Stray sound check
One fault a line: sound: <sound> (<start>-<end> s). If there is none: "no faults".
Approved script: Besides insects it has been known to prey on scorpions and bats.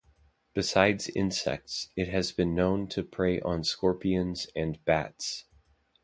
no faults